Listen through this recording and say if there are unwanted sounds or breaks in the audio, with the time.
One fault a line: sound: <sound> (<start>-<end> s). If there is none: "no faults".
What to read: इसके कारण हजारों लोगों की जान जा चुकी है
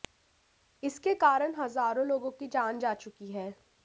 no faults